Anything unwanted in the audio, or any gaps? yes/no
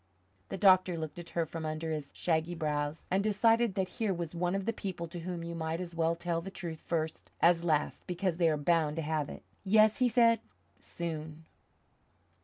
no